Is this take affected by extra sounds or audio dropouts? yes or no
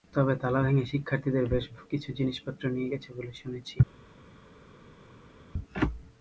no